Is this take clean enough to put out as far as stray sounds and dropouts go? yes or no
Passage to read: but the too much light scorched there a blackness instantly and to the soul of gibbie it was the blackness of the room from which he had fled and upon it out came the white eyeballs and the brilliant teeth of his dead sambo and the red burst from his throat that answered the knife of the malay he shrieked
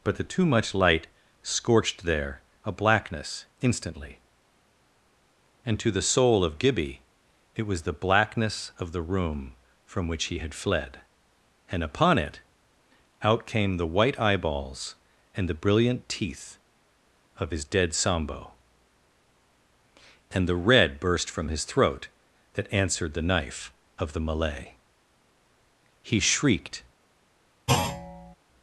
no